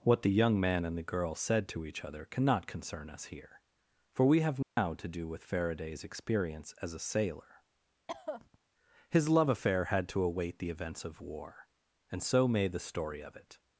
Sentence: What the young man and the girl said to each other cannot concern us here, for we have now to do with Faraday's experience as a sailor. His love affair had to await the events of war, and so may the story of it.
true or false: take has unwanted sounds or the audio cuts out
true